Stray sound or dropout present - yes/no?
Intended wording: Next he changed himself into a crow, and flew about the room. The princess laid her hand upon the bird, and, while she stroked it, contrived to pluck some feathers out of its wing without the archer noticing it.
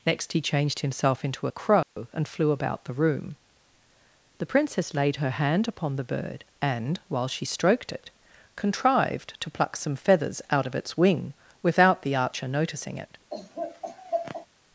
yes